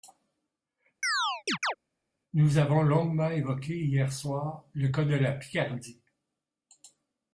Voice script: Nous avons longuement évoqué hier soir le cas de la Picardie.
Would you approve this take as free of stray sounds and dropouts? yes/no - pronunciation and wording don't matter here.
no